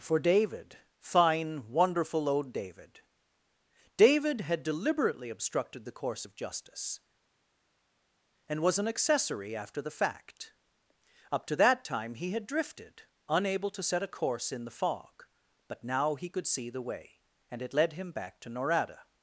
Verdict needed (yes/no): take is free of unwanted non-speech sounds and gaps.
yes